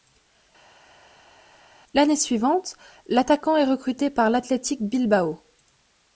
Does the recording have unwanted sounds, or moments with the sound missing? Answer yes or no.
no